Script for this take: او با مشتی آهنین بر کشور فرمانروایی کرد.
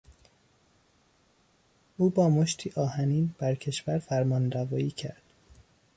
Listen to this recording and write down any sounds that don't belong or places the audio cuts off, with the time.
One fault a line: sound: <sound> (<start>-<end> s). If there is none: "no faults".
no faults